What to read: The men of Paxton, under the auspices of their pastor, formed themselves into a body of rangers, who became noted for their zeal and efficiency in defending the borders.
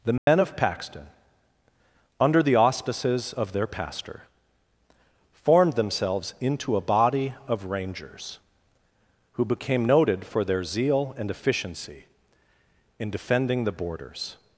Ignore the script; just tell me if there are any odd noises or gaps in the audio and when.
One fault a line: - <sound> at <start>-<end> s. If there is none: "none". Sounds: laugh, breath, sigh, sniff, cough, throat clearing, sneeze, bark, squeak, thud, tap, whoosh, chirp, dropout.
- dropout at 0.2-0.3 s